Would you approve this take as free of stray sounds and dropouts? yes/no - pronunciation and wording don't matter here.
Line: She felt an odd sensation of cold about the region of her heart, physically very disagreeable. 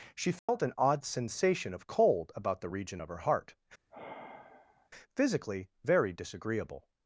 no